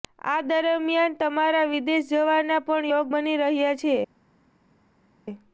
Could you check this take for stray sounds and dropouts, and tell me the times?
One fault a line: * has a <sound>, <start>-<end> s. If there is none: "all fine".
all fine